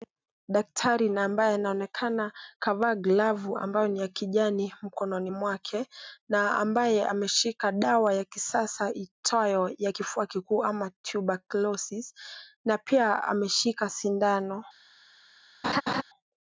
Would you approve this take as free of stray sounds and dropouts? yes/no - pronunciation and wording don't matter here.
no